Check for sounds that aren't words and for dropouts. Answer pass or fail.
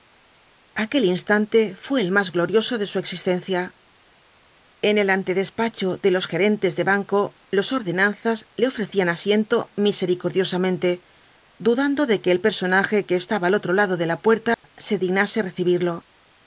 fail